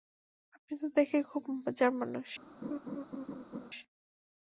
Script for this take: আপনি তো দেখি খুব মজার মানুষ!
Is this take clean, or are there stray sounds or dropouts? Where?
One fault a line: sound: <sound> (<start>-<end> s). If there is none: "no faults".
sound: laugh (2.6-3.7 s)